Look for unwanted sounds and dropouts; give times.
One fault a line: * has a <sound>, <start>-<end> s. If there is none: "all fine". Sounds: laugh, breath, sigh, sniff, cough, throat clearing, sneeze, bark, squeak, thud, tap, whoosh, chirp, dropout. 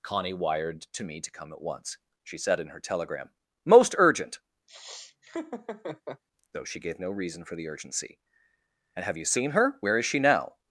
* has a laugh, 4.7-6.2 s